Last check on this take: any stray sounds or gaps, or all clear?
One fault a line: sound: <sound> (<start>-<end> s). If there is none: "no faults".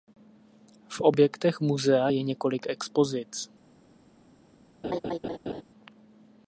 sound: laugh (4.8-5.6 s)